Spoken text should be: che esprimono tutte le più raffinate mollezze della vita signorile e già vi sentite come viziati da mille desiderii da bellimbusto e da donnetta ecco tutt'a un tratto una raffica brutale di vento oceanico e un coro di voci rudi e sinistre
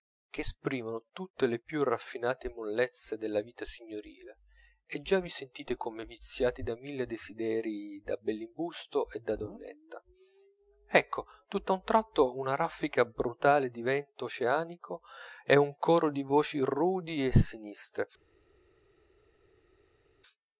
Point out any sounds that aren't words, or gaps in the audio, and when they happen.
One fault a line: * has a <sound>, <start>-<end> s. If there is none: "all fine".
all fine